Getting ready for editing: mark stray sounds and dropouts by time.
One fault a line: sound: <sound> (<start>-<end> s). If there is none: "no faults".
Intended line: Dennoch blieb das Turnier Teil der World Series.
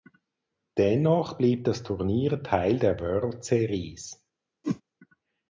sound: whoosh (4.6-4.8 s)